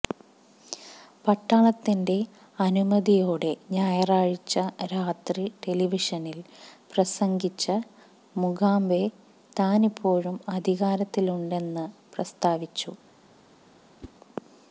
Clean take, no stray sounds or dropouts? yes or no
no